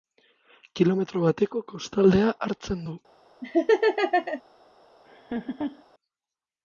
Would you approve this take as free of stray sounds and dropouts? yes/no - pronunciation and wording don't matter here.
no